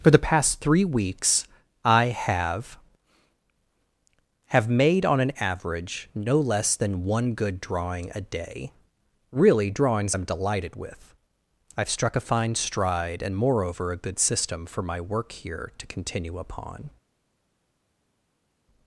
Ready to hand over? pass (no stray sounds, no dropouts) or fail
pass